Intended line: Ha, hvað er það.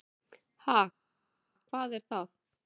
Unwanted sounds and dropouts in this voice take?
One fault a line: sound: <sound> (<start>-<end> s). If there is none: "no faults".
no faults